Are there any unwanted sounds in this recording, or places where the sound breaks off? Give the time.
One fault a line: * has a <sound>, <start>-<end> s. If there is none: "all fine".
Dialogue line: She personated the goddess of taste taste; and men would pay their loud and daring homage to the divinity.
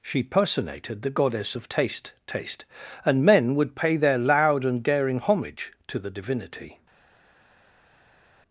all fine